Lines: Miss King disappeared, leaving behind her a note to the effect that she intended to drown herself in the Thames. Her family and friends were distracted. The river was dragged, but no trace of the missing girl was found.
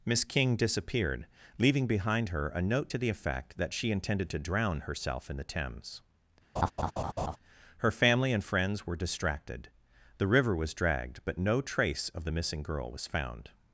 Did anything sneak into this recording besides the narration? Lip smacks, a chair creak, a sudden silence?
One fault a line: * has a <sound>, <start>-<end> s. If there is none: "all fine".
* has a laugh, 6.6-7.4 s